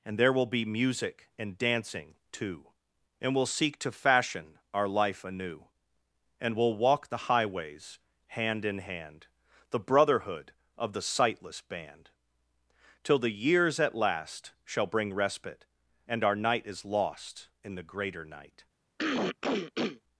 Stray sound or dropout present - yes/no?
yes